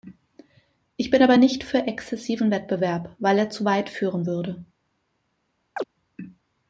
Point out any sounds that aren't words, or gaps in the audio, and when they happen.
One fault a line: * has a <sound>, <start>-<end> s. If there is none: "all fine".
* has a chirp, 5.8-5.8 s